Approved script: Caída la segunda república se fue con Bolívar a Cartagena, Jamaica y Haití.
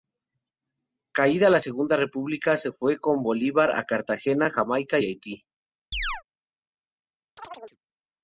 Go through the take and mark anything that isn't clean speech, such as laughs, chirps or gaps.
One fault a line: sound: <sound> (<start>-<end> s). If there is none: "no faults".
sound: chirp (5.9-6.2 s)
sound: chirp (7.4-7.8 s)